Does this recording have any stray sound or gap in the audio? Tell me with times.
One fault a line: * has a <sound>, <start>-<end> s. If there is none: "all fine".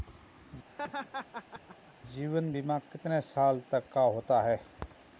* has a laugh, 0.7-1.9 s